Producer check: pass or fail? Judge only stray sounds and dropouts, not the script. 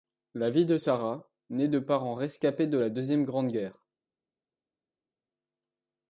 pass